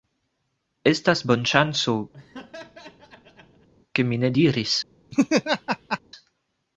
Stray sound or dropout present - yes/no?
yes